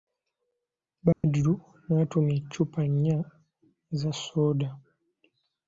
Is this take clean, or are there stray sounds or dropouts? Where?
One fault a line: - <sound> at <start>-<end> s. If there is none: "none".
- dropout at 1.1-1.2 s